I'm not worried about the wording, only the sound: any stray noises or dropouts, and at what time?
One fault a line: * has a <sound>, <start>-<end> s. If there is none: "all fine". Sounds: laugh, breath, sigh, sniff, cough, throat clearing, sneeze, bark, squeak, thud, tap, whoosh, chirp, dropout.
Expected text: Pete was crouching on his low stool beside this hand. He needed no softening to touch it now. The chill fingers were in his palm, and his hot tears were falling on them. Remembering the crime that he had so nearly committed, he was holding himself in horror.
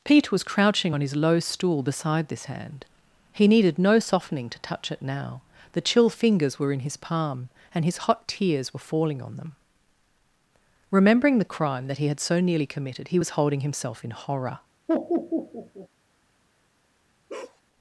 * has a laugh, 14.9-15.9 s
* has a bark, 17.3-17.6 s